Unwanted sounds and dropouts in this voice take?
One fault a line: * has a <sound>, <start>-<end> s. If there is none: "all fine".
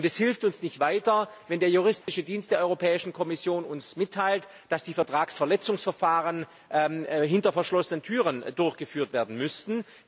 * has a dropout, 2.0-2.1 s